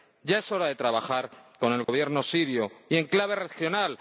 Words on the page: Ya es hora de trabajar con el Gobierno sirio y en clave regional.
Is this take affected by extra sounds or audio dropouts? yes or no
yes